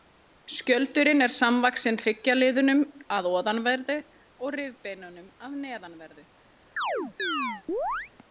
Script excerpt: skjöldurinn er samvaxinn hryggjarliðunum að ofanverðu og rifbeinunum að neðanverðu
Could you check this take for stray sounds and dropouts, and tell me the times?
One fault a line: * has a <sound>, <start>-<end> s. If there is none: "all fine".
* has a chirp, 6.8-8.1 s